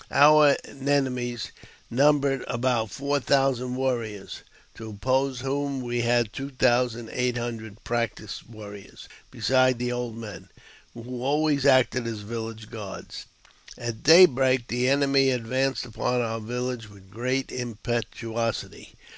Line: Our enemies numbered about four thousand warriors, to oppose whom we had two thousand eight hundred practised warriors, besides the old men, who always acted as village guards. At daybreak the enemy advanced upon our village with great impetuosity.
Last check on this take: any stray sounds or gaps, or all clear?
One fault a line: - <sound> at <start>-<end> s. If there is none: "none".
none